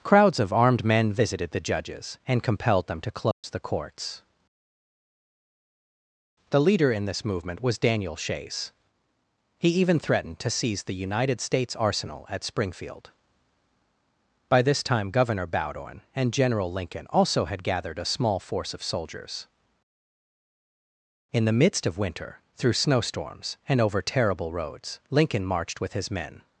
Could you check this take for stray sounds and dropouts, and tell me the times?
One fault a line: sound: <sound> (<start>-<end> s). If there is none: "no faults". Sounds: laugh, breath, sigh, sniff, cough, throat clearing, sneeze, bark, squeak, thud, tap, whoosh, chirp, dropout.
sound: dropout (3.3-3.4 s)